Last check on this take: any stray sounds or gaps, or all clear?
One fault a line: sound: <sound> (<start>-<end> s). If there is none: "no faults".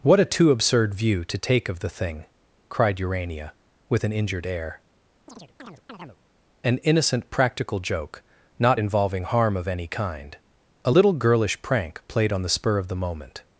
sound: chirp (5.3-6.2 s)